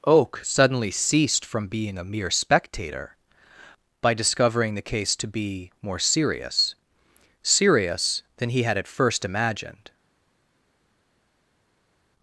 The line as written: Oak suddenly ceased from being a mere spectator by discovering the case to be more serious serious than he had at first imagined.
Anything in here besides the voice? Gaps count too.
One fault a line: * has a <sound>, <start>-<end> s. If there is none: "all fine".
all fine